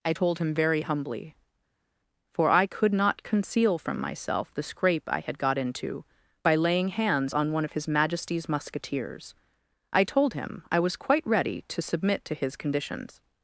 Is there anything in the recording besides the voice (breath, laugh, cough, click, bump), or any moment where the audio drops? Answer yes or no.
no